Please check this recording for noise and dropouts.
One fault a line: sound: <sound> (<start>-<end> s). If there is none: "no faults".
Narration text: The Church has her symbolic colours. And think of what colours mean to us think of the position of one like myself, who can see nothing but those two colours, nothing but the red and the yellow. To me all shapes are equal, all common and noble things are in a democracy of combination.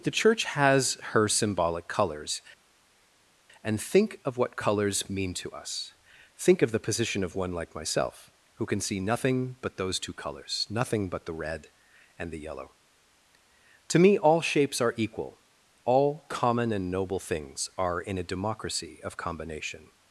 no faults